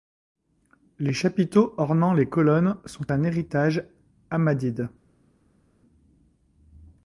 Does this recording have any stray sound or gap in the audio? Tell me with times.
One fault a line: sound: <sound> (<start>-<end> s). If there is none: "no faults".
no faults